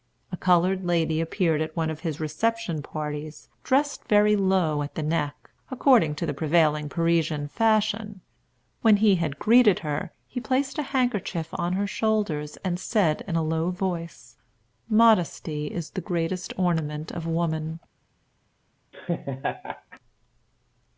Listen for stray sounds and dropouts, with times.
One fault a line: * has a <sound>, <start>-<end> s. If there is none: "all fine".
* has a laugh, 18.9-20.0 s